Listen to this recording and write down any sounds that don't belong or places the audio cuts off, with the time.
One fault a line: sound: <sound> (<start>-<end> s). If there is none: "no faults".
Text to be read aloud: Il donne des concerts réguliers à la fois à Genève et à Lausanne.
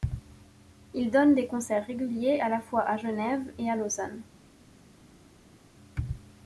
no faults